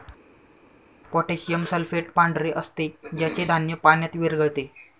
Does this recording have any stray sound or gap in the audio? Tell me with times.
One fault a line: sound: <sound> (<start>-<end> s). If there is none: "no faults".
no faults